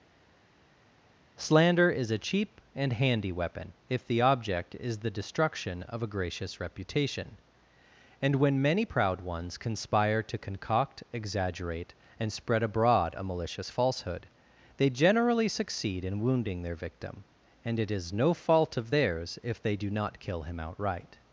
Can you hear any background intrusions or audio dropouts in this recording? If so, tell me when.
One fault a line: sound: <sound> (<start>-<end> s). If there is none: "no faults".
no faults